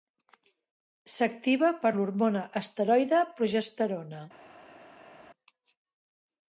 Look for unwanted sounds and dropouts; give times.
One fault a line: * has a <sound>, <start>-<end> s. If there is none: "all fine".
all fine